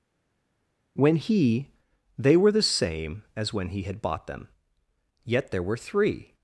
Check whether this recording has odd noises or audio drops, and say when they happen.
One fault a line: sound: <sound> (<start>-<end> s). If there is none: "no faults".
no faults